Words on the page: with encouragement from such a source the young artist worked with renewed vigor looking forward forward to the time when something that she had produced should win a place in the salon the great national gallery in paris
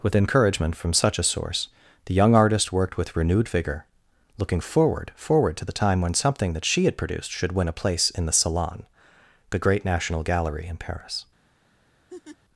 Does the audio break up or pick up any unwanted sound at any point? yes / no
yes